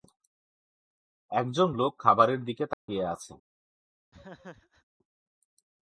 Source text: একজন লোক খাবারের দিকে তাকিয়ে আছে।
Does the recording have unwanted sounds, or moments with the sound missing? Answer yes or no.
yes